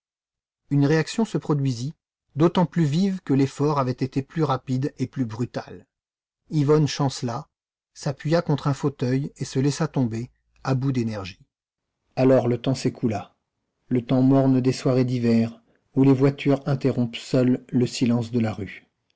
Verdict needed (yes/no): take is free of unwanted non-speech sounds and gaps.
yes